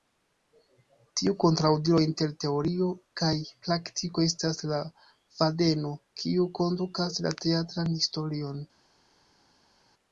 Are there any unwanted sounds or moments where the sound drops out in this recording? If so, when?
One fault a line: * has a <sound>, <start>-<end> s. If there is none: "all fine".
all fine